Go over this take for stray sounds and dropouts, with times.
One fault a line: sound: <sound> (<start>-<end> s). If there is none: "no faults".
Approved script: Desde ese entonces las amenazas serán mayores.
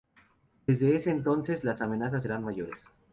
no faults